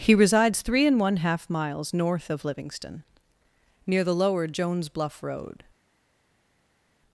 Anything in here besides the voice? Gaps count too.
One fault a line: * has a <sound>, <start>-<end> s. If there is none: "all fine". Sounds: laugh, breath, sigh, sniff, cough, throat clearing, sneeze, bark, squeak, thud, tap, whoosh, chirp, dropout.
all fine